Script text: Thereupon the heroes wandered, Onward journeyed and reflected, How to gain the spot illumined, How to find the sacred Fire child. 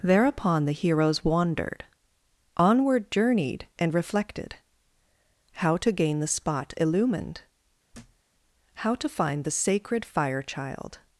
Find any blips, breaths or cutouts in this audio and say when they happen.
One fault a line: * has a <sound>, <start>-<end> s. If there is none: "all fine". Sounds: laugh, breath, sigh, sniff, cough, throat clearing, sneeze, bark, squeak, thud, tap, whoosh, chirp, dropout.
* has a thud, 7.9-8.2 s